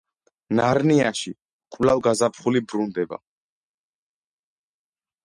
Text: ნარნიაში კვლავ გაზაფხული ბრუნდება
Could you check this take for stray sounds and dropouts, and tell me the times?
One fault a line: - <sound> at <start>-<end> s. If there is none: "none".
none